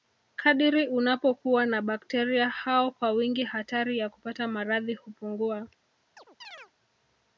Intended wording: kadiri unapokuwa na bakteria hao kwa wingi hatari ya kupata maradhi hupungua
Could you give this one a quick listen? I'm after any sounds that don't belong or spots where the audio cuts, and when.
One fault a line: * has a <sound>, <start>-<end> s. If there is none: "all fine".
* has a chirp, 6.2-6.7 s